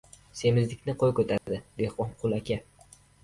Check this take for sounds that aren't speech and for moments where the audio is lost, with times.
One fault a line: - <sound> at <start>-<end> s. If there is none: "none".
- dropout at 1.4-1.5 s